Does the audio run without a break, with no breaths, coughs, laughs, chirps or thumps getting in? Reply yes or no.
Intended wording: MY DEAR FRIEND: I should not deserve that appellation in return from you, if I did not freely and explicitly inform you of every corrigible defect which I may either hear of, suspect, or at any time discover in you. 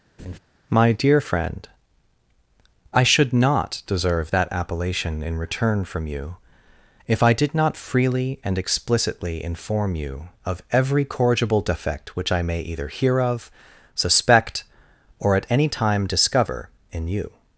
no